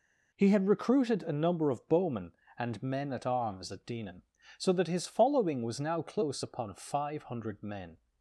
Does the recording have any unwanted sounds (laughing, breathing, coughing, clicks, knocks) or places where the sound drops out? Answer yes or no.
no